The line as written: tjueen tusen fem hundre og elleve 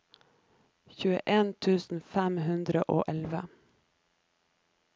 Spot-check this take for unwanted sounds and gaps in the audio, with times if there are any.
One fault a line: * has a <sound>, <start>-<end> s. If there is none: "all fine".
all fine